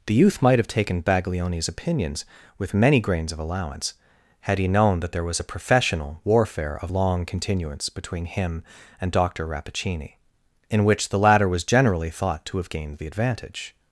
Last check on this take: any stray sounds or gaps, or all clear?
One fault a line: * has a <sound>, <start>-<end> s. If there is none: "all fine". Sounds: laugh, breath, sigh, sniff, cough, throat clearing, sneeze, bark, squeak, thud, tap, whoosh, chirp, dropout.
all fine